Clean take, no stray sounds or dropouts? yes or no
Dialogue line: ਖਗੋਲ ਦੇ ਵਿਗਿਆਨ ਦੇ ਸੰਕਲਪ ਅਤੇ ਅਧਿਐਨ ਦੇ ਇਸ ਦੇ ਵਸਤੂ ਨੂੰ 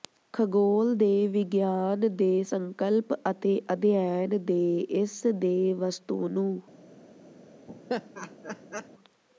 no